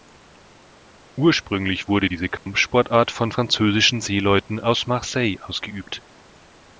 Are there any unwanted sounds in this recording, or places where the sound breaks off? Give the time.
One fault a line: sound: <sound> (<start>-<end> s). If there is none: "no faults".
sound: dropout (2.4-2.5 s)